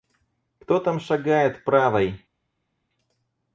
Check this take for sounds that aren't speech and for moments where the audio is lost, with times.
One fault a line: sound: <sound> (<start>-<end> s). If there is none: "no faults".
no faults